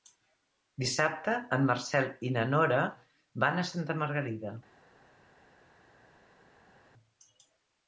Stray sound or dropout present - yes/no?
no